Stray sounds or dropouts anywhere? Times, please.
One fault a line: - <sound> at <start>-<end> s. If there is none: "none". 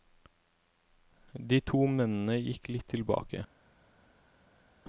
none